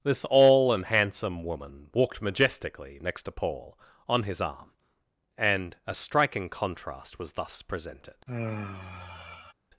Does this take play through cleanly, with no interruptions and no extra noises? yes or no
no